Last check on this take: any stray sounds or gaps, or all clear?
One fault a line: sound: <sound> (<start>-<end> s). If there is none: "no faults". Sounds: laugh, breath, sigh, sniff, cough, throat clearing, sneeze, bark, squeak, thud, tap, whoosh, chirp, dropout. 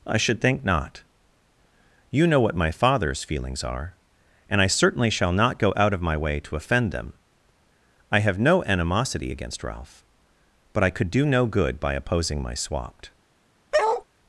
sound: bark (13.7-14.0 s)